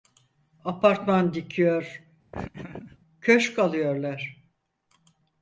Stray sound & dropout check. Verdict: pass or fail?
fail